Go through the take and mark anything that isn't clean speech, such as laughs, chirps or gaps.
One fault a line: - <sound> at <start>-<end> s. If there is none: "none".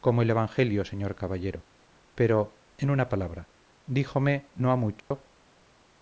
- dropout at 5.0-5.1 s